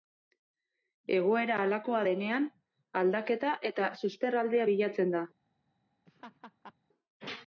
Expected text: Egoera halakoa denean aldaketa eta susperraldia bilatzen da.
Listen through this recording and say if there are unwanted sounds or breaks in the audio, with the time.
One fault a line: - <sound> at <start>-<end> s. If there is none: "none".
- laugh at 6.1-6.7 s